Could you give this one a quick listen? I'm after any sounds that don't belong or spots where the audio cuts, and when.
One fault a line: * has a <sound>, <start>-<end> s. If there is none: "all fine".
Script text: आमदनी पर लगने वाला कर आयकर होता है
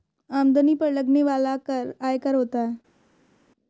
all fine